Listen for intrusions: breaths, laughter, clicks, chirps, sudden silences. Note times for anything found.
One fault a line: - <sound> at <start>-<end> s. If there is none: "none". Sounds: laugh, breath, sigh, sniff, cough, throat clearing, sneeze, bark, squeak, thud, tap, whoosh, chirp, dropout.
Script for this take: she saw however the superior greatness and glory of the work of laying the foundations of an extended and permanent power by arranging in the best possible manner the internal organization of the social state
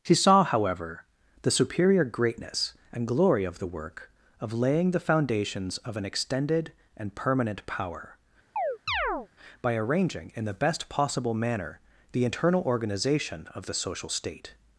- chirp at 8.6-9.3 s